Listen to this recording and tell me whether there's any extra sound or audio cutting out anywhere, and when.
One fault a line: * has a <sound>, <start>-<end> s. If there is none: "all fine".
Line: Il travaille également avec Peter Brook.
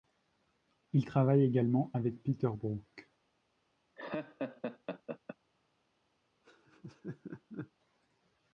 * has a laugh, 4.0-5.4 s
* has a laugh, 6.4-7.7 s